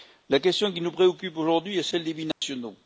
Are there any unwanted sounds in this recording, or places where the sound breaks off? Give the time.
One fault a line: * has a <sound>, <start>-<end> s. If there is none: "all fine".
* has a dropout, 2.3-2.4 s